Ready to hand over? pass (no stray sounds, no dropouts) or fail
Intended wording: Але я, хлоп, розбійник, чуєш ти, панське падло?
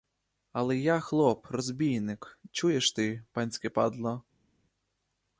pass